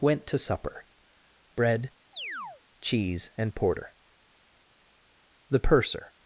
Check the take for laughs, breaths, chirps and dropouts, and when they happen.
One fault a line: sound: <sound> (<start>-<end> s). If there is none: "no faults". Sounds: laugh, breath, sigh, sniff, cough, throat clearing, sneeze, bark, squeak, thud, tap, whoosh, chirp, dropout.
sound: chirp (2.1-2.6 s)